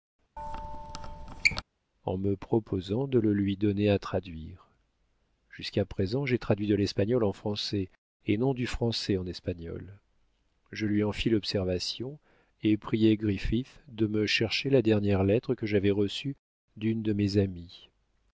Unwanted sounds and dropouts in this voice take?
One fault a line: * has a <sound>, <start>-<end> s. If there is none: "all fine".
* has a squeak, 0.4-1.6 s